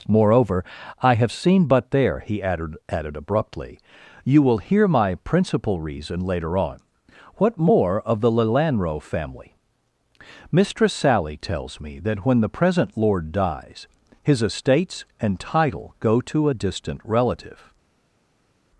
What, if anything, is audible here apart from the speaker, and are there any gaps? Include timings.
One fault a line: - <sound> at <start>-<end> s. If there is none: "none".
none